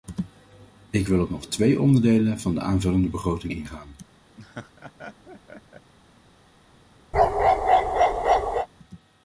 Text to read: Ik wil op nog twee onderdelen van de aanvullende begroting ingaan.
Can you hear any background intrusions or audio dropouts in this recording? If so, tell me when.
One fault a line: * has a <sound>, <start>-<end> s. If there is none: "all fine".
* has a laugh, 4.4-5.9 s
* has a bark, 7.1-8.7 s